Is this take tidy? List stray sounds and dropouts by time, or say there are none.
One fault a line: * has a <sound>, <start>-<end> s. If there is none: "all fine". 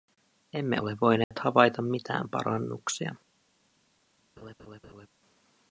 * has a dropout, 1.2-1.3 s
* has a laugh, 4.4-5.1 s